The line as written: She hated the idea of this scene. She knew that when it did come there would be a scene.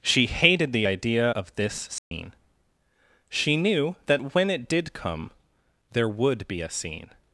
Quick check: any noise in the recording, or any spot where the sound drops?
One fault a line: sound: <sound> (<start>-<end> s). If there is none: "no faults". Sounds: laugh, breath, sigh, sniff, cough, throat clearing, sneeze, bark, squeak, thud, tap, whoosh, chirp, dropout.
sound: dropout (2.0-2.1 s)